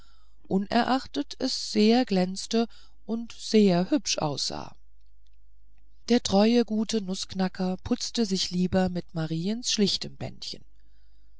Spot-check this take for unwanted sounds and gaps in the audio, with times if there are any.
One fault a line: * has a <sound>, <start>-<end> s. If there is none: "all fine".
all fine